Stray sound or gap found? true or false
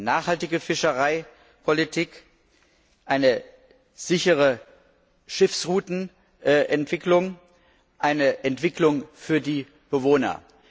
false